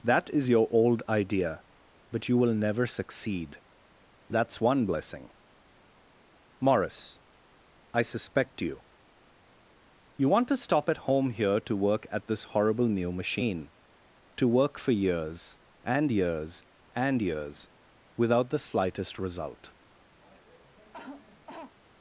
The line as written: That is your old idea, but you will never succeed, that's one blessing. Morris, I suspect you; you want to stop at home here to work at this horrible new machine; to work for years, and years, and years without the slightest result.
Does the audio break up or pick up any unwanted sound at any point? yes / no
yes